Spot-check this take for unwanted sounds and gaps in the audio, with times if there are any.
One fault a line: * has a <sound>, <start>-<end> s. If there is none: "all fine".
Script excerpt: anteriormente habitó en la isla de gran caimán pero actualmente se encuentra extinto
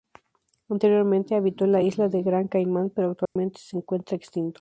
* has a dropout, 3.3-3.4 s